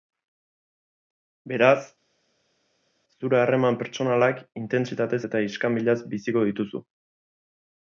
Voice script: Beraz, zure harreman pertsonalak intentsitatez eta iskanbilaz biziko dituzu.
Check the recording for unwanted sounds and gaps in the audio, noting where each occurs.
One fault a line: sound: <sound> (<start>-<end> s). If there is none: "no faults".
no faults